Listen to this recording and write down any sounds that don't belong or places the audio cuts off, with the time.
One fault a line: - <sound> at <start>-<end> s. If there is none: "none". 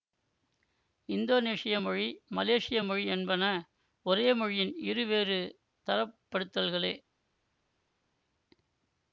none